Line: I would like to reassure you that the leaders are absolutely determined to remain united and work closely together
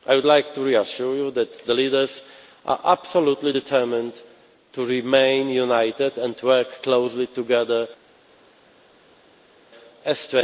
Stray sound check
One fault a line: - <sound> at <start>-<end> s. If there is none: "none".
none